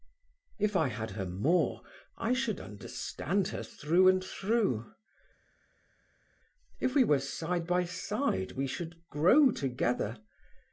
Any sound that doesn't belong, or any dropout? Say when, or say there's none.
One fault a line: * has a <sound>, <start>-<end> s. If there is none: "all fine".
all fine